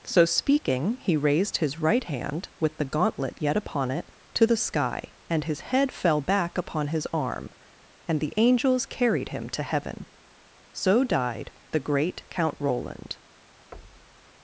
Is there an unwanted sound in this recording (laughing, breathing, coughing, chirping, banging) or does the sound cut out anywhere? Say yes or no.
yes